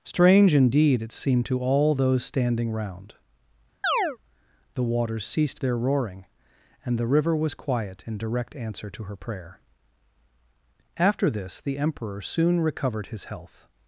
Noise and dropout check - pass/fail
fail